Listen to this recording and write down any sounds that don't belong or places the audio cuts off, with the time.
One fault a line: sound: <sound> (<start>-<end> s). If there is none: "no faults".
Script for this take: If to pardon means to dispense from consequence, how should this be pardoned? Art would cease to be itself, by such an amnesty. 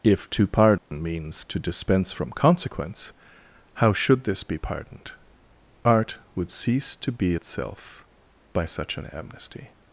sound: dropout (0.8-0.9 s)